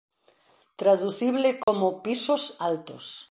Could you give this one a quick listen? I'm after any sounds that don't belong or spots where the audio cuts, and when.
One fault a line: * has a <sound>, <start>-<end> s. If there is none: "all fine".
* has a dropout, 1.6-1.7 s